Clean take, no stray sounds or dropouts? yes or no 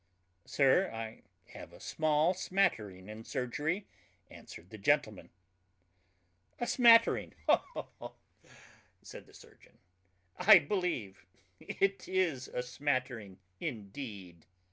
yes